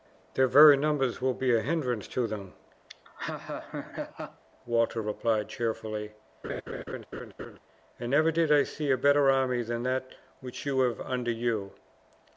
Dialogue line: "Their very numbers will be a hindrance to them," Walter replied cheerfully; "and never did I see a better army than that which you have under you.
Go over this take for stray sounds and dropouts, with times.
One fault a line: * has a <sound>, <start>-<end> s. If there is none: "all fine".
* has a laugh, 2.9-4.4 s
* has a laugh, 6.4-7.6 s